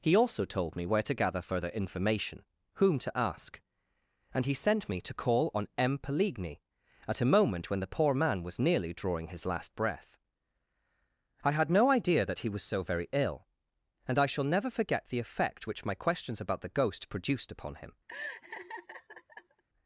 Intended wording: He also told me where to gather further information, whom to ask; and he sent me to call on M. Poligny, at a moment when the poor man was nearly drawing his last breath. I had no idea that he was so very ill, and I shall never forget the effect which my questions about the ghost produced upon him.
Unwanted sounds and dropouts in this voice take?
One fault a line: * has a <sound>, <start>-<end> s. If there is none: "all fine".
* has a laugh, 18.1-19.6 s